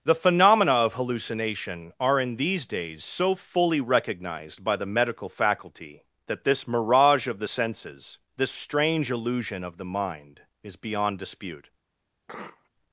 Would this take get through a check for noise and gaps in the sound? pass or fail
fail